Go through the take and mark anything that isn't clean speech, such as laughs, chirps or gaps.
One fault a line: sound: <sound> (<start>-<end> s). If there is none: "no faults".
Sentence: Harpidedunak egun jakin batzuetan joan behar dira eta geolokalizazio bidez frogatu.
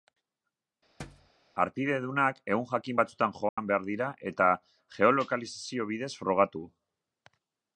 sound: thud (1.0-1.3 s)
sound: dropout (3.5-3.6 s)